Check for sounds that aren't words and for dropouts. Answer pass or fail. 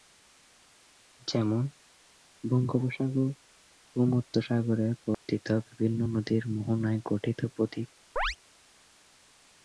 fail